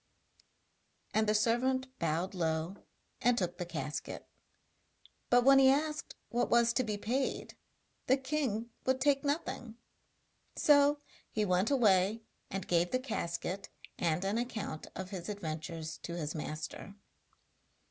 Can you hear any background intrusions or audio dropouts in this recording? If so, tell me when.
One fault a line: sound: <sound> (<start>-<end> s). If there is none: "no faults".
no faults